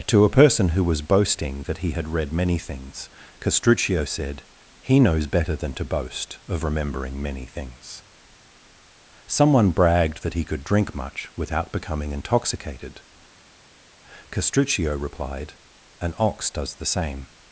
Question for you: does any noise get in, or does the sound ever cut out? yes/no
no